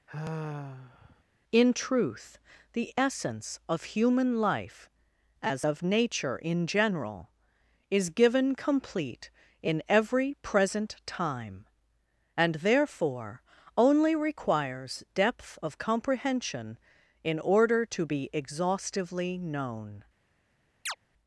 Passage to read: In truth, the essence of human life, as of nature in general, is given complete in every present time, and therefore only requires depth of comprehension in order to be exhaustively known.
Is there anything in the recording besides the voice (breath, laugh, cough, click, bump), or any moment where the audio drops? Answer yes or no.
yes